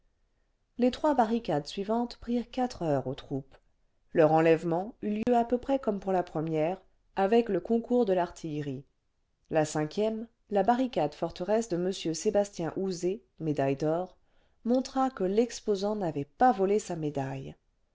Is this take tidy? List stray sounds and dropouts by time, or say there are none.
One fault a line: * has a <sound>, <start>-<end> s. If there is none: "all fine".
* has a dropout, 5.2-5.3 s